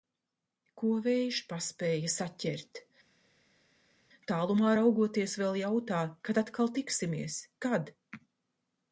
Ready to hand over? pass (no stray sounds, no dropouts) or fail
pass